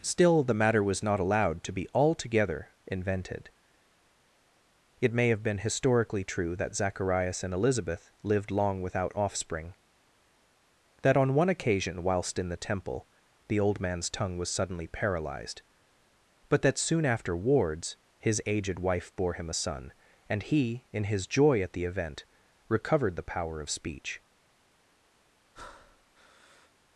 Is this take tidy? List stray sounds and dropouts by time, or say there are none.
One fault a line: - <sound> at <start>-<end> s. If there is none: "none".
- breath at 25.5-26.7 s